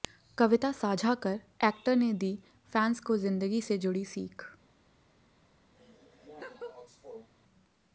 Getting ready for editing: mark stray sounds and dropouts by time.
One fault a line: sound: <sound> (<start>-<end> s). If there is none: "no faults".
sound: laugh (5.7-7.3 s)